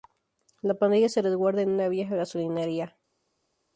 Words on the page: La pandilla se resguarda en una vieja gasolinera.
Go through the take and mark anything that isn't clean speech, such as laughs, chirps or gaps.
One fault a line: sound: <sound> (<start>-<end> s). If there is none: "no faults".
no faults